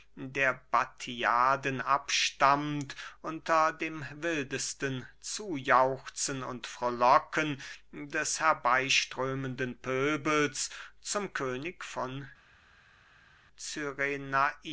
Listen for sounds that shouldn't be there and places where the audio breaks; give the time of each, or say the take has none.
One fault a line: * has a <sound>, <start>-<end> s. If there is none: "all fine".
all fine